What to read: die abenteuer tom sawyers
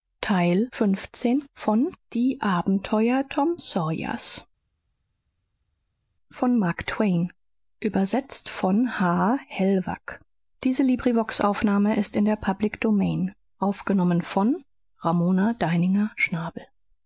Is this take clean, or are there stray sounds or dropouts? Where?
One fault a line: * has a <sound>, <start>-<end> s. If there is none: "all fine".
all fine